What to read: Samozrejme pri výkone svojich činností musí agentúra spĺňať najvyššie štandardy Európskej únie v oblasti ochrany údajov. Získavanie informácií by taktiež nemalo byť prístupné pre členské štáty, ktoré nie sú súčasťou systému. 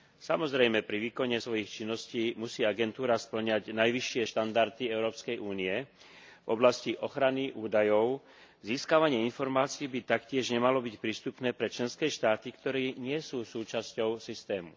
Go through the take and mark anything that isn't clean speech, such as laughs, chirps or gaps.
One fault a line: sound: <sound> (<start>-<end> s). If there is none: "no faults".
no faults